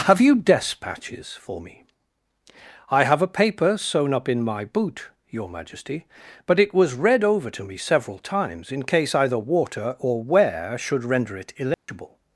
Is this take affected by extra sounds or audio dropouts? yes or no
yes